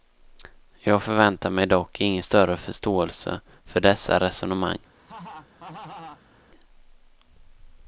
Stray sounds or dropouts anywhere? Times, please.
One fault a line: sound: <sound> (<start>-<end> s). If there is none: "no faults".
sound: laugh (4.9-6.4 s)